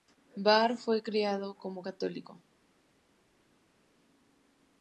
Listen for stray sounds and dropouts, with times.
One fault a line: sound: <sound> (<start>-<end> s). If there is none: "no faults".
no faults